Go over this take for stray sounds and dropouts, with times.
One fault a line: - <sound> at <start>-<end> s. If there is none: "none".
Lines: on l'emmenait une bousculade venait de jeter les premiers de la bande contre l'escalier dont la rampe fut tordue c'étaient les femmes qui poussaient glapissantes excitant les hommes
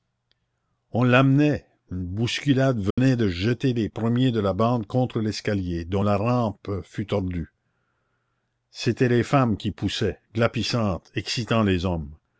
- dropout at 2.9-3.0 s